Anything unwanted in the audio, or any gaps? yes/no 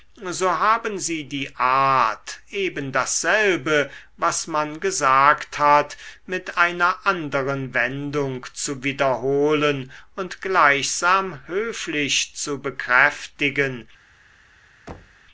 yes